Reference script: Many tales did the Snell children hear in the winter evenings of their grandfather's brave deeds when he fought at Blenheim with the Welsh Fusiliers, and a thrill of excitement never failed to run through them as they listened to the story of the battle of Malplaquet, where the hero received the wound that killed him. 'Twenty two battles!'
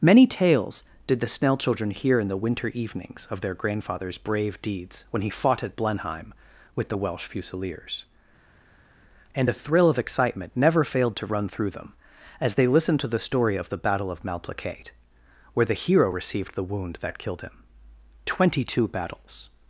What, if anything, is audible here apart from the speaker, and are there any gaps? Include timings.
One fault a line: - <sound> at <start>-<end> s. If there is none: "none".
none